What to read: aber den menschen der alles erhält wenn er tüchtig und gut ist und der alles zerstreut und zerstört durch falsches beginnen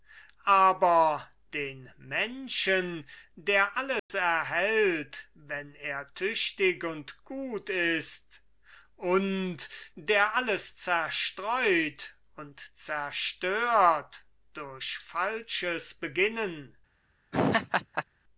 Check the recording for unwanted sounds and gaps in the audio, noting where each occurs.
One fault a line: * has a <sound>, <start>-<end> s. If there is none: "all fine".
* has a dropout, 4.0-4.1 s
* has a laugh, 17.3-18.0 s